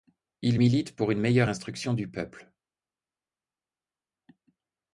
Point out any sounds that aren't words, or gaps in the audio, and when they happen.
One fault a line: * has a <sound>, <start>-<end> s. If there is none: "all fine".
all fine